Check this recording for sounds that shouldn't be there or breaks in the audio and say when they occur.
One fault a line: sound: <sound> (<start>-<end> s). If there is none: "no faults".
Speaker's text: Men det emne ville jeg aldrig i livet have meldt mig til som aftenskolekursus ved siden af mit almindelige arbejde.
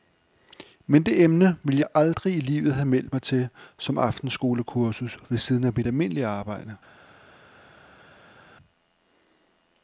no faults